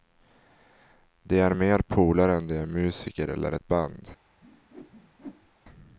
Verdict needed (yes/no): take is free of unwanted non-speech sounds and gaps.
no